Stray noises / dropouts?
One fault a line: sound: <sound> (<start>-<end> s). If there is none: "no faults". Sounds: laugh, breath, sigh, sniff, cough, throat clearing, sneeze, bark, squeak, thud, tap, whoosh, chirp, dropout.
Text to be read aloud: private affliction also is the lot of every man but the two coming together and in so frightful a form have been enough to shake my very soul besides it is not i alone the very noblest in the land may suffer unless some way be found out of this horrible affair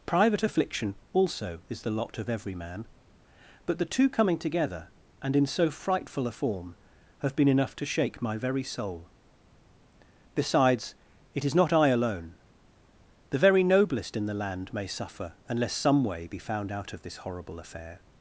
no faults